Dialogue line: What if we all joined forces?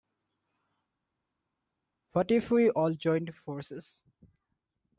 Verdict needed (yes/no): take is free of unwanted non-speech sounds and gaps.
yes